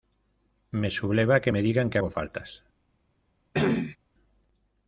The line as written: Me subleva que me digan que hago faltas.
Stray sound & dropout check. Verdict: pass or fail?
fail